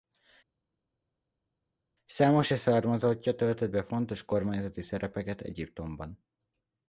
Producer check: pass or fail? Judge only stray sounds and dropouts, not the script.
pass